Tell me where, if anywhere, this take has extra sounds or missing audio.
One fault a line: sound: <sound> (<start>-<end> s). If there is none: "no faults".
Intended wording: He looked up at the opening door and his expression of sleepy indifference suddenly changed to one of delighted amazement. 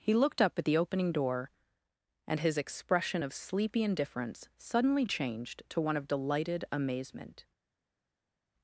no faults